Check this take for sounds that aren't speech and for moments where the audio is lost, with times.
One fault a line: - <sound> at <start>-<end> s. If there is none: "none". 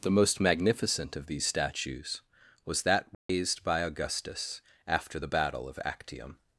- dropout at 3.1-3.3 s